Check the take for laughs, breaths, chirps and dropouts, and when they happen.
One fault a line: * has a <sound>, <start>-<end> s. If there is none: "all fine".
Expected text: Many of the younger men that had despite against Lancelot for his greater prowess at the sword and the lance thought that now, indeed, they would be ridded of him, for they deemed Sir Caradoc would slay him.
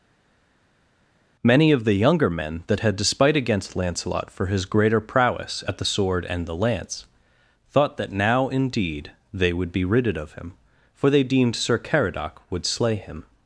all fine